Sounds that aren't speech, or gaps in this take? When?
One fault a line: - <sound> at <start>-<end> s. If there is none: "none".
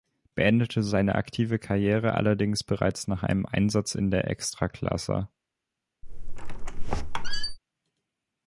- squeak at 6.0-7.6 s